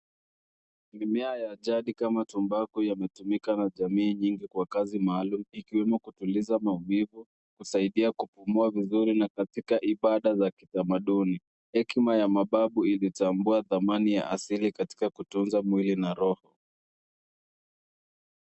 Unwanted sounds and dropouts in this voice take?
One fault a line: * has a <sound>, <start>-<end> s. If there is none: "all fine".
all fine